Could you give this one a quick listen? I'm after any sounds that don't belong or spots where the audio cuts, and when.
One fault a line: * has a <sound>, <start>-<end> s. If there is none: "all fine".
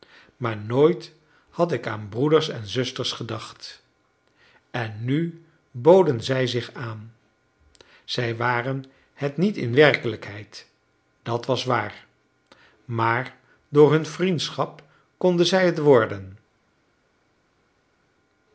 all fine